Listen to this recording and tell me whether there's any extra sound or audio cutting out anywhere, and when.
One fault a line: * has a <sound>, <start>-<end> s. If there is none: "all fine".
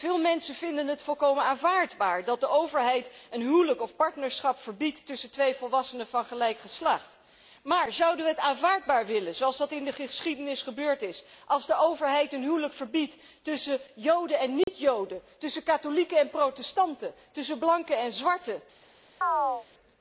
* has a dropout, 14.6-14.7 s
* has a chirp, 19.2-19.7 s